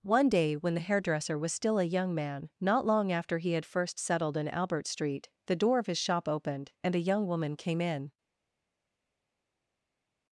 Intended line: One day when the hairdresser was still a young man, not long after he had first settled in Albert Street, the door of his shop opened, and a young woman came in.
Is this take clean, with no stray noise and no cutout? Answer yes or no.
yes